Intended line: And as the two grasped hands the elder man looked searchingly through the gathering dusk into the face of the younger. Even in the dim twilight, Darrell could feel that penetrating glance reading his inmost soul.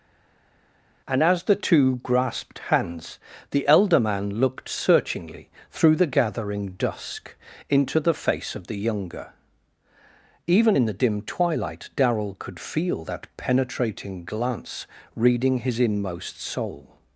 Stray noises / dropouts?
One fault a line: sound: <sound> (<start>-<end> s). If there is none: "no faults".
no faults